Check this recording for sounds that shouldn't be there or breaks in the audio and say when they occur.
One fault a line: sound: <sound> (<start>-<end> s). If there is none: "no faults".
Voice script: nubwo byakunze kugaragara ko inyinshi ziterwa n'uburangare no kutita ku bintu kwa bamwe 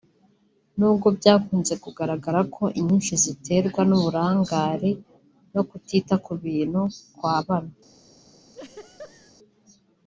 sound: laugh (8.5-9.3 s)